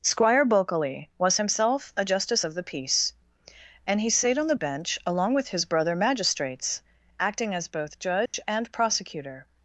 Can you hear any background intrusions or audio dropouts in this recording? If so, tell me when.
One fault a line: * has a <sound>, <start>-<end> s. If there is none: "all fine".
* has a dropout, 8.3-8.3 s